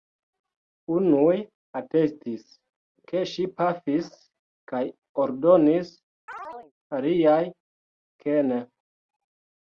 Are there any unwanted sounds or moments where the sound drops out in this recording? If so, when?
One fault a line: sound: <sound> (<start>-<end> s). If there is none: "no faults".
sound: chirp (6.3-6.7 s)